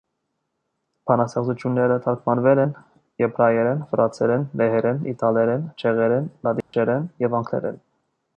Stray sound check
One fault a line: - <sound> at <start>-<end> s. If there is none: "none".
- dropout at 6.6-6.7 s